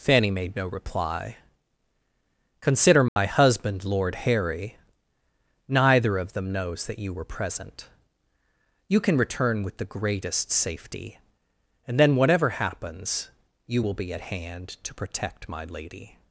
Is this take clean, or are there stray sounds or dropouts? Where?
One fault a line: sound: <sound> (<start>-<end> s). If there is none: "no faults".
sound: dropout (3.1-3.2 s)